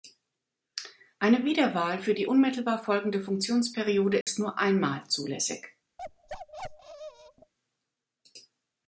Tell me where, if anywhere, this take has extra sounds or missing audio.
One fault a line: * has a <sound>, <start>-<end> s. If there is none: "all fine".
* has a dropout, 4.2-4.3 s
* has a bark, 6.0-7.5 s